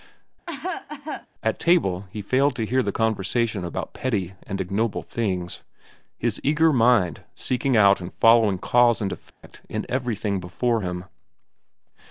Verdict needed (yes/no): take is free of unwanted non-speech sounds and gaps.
no